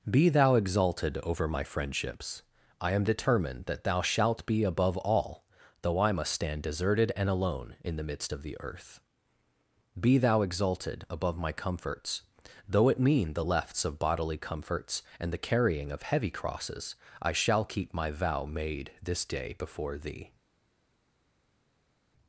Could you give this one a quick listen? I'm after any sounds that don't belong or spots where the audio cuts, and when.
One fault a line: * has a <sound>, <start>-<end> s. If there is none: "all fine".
all fine